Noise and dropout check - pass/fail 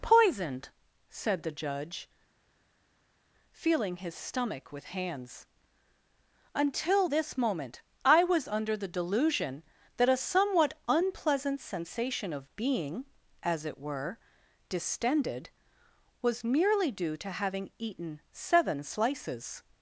pass